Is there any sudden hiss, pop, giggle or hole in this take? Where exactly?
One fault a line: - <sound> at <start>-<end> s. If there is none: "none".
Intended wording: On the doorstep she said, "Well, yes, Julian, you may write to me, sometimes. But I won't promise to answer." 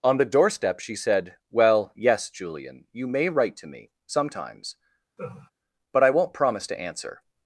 - laugh at 5.2-5.5 s